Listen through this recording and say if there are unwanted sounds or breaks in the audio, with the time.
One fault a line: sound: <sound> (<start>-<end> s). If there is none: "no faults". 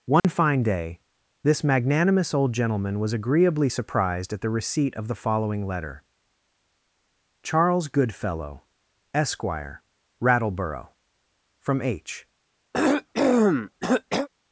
sound: dropout (0.2-0.2 s)
sound: cough (12.7-14.3 s)